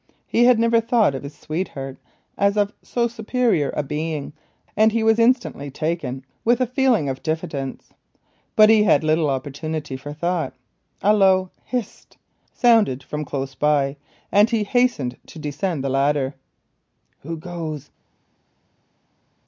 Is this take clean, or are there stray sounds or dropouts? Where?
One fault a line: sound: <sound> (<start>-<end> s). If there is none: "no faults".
no faults